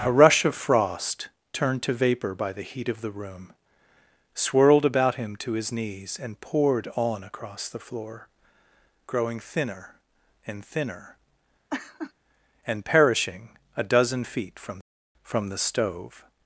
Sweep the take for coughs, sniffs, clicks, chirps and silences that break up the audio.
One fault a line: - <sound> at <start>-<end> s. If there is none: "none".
- laugh at 11.7-12.1 s